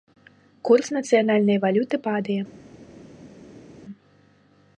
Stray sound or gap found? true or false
false